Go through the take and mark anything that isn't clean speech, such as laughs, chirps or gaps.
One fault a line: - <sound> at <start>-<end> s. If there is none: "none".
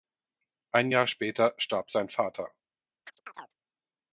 - chirp at 3.1-3.6 s